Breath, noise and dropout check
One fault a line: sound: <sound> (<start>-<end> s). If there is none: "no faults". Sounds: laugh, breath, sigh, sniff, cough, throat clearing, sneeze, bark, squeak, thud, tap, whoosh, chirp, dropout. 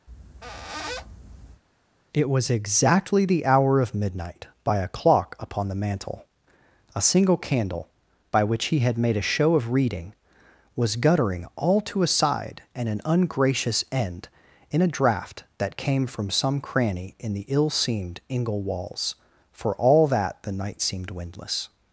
sound: squeak (0.1-1.6 s)